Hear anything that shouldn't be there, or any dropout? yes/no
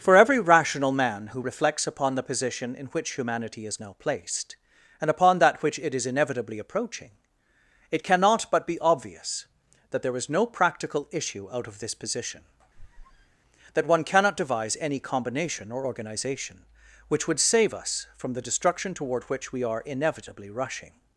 yes